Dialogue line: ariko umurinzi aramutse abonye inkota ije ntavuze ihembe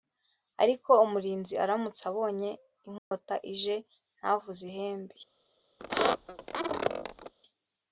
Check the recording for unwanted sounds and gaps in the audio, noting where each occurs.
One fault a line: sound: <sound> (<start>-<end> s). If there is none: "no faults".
sound: dropout (3.0-3.1 s)
sound: squeak (5.8-7.3 s)